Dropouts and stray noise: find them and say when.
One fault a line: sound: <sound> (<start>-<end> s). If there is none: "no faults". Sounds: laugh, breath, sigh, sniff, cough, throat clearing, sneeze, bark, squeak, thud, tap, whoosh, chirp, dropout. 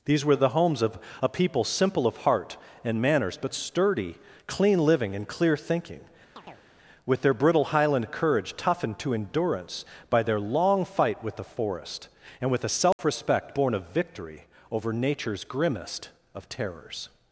sound: chirp (6.4-6.7 s)
sound: dropout (12.9-13.0 s)